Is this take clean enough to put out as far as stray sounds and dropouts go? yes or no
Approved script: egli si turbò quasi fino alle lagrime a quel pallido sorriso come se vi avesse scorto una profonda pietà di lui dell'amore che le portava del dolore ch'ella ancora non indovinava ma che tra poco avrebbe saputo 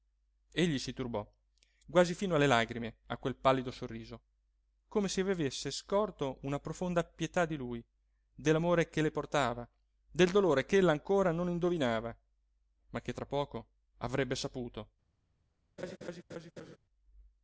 no